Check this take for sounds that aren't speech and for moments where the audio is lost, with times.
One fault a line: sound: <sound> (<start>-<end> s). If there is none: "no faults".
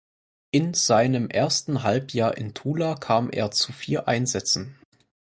no faults